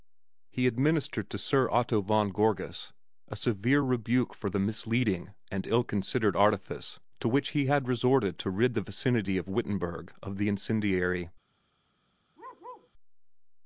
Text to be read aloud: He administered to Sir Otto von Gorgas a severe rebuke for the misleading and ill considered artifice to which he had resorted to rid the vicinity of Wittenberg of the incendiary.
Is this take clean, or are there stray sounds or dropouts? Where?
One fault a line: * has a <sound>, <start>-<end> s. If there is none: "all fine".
* has a bark, 12.4-12.9 s